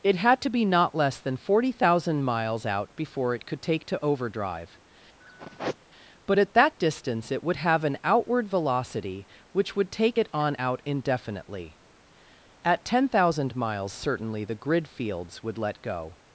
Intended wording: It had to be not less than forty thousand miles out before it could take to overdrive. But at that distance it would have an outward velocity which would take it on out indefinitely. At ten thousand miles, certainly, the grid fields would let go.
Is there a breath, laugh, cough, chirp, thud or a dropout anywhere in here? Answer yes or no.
yes